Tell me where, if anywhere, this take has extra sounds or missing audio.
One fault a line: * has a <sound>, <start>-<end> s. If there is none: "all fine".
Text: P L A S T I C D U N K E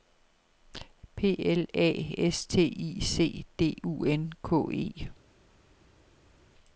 all fine